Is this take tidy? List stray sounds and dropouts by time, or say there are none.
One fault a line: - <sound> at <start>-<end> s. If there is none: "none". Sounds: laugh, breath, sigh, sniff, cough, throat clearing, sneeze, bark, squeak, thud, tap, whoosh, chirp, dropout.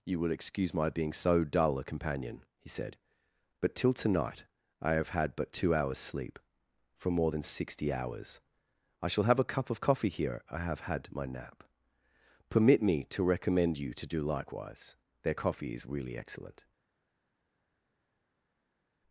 none